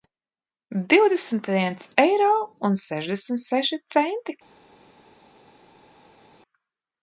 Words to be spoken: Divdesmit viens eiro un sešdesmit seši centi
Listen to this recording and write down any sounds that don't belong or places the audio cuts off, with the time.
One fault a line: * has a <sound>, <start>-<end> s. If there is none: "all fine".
all fine